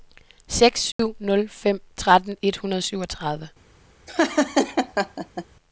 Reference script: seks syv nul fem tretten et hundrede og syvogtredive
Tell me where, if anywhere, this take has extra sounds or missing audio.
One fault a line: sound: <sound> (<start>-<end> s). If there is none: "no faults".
sound: dropout (0.9-1.0 s)
sound: laugh (4.1-5.5 s)